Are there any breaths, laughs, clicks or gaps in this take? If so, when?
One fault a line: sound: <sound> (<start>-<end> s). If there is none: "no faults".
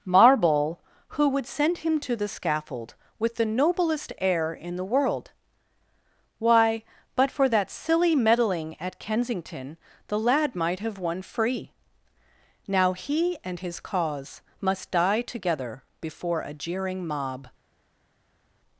no faults